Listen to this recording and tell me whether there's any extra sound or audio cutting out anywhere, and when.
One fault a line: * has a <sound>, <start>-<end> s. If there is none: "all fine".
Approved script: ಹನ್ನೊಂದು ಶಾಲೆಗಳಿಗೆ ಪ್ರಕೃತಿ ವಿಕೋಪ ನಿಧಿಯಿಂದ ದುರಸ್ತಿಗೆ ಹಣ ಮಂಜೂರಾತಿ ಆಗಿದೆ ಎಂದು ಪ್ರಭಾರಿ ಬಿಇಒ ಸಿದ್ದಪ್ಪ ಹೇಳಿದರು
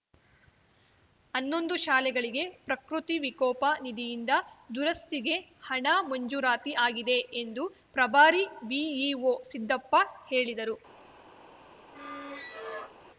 * has a squeak, 11.9-12.9 s